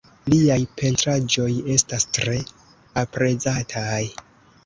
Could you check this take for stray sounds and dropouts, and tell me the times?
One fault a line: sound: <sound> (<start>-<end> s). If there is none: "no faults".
no faults